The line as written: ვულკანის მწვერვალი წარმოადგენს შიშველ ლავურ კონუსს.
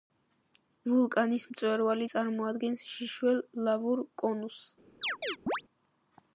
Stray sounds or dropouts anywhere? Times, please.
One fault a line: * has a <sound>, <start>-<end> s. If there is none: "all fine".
* has a chirp, 5.0-5.6 s